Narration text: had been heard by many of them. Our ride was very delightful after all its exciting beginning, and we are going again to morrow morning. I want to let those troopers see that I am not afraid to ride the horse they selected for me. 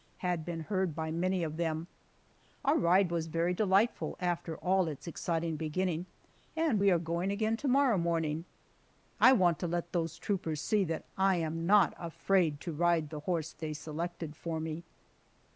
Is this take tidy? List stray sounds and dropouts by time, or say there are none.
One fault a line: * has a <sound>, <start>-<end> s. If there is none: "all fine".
all fine